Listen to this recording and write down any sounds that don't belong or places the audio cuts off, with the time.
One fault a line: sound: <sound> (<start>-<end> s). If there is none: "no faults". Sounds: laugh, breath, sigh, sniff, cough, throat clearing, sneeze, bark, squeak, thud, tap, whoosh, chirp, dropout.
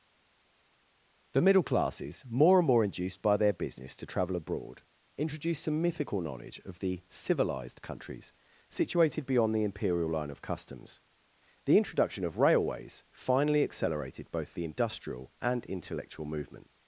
no faults